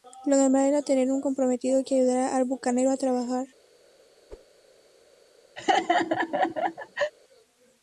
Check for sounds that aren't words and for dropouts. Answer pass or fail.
fail